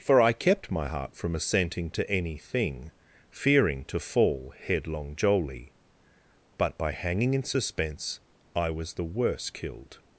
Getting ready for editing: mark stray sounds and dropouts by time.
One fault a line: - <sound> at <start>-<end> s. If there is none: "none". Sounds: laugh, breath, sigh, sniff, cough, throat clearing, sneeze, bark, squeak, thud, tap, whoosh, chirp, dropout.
none